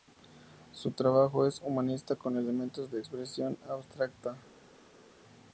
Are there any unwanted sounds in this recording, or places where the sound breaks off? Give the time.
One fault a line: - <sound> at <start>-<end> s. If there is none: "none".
none